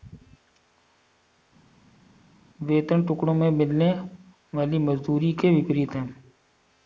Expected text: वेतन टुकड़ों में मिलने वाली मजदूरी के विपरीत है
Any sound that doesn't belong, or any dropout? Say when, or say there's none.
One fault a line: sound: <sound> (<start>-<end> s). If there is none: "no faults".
no faults